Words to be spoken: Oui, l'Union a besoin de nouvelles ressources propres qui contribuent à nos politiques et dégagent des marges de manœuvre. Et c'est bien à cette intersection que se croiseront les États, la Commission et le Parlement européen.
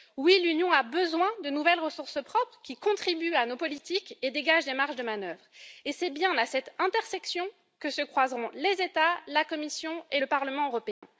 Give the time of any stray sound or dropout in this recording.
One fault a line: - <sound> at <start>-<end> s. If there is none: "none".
- dropout at 10.9-11.0 s